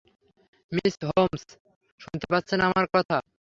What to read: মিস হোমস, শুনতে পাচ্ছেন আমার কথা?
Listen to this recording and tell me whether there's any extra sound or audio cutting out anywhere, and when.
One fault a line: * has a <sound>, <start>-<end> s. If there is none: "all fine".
all fine